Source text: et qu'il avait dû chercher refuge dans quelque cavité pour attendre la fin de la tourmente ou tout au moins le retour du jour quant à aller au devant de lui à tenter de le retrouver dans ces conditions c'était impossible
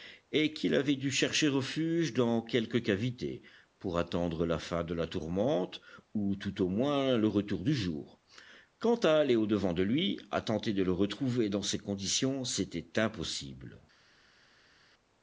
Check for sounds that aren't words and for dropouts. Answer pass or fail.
pass